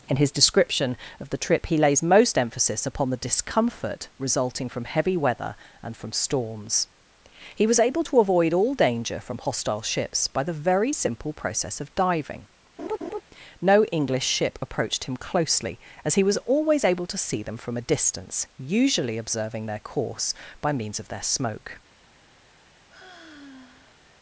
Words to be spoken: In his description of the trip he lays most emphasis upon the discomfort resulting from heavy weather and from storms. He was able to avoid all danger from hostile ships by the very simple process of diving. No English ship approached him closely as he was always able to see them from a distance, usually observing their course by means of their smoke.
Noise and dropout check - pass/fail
fail